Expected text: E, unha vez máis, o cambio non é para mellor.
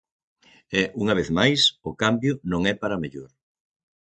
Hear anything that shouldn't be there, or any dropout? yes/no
no